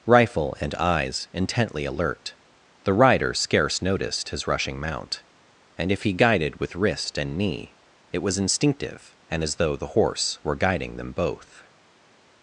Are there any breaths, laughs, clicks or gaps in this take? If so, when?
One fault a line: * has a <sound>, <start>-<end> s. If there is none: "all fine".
all fine